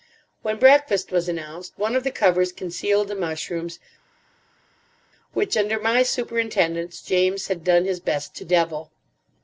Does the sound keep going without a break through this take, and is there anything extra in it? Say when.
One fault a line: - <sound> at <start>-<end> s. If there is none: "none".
none